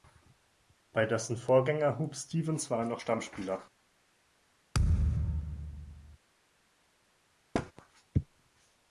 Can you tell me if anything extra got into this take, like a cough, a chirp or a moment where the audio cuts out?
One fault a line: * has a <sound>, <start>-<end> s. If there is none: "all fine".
* has a thud, 4.7-6.2 s
* has a thud, 7.5-7.7 s